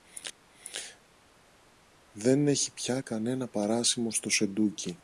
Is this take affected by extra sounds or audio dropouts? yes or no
no